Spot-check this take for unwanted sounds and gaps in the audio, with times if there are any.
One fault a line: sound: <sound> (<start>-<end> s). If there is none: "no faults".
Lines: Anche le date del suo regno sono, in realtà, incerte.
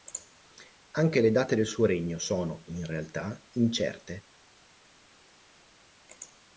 no faults